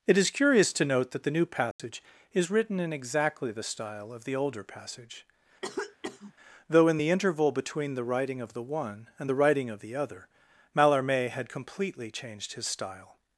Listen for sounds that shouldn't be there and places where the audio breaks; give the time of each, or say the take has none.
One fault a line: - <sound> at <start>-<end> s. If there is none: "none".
- dropout at 1.7-1.8 s
- cough at 5.6-6.3 s